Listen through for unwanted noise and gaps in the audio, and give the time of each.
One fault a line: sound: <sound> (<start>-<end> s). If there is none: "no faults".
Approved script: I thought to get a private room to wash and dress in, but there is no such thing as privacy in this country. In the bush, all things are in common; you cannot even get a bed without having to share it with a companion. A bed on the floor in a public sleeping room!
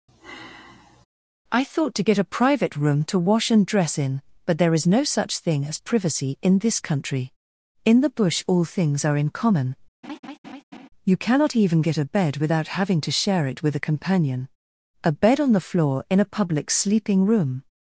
sound: sigh (0.1-1.1 s)
sound: laugh (10.0-10.9 s)